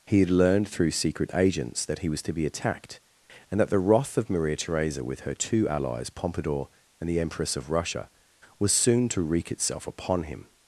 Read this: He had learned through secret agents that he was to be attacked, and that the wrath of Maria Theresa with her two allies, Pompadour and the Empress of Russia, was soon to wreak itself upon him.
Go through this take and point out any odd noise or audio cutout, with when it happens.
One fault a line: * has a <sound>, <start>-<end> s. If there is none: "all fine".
all fine